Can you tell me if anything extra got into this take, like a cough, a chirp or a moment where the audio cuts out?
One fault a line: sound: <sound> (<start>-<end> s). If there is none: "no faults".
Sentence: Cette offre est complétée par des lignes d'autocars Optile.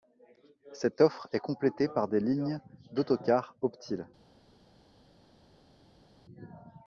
no faults